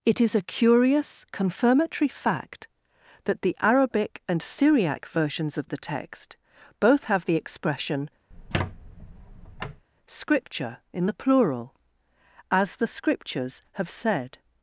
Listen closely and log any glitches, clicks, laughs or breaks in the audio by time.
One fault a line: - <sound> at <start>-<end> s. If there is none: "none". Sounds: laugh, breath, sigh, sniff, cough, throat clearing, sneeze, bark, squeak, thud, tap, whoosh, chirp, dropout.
- squeak at 8.3-9.8 s